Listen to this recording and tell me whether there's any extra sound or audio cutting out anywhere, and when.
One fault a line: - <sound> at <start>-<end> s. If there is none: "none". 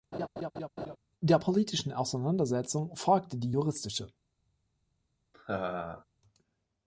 - laugh at 0.1-1.0 s
- laugh at 5.3-6.0 s